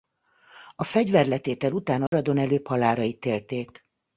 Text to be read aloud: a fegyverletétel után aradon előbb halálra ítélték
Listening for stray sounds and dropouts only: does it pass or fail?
fail